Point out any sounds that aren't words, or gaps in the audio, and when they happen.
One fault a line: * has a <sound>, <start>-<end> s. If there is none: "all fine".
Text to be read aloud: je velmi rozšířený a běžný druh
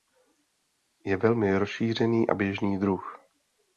all fine